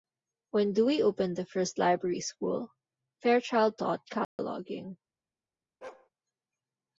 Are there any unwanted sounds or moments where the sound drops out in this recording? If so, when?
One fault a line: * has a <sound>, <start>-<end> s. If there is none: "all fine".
* has a dropout, 4.2-4.4 s
* has a bark, 5.8-6.1 s